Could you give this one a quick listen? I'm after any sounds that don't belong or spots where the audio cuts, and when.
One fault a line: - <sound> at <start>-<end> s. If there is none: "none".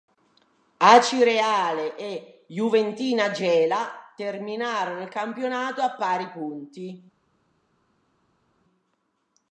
none